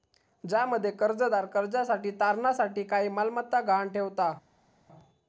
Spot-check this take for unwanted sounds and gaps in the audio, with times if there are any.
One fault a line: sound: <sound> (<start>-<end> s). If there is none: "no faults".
no faults